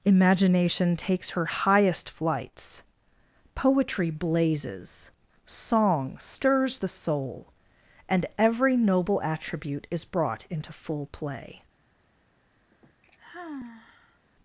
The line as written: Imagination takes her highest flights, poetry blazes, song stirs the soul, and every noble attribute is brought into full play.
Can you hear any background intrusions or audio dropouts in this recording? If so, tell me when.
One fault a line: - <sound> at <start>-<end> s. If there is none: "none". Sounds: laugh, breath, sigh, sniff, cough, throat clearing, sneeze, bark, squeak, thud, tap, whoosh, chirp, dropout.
- sigh at 12.7-14.2 s